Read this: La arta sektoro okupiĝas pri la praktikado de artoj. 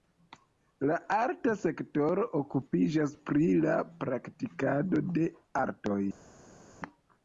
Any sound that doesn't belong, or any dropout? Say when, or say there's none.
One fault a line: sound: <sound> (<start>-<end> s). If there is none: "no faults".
no faults